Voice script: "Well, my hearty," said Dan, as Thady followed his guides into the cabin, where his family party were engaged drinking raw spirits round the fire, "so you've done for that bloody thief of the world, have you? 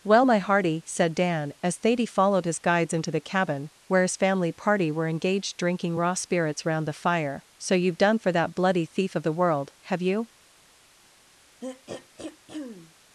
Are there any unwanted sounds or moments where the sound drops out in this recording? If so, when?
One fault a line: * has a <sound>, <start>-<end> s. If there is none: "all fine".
* has a throat clearing, 11.6-12.9 s